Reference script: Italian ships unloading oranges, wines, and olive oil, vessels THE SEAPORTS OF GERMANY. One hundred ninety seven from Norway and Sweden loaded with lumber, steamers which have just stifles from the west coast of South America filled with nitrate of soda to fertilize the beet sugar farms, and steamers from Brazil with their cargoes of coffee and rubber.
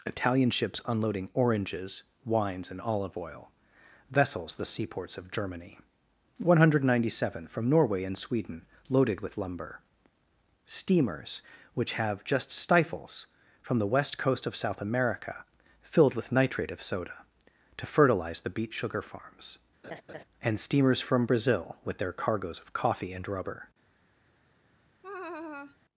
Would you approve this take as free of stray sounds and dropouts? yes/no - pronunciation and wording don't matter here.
no